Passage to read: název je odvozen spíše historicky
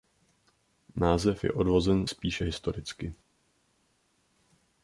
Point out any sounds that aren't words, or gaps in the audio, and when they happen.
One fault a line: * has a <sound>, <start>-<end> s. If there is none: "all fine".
all fine